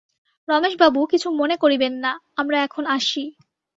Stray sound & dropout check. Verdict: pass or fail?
pass